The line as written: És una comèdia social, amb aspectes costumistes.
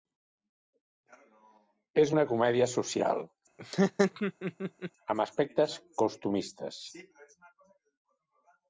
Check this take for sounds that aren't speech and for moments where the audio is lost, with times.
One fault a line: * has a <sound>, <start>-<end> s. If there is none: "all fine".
* has a laugh, 3.6-4.9 s